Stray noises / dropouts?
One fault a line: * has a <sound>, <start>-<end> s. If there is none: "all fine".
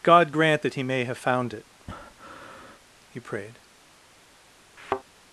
* has a breath, 1.8-2.8 s
* has a thud, 4.8-5.0 s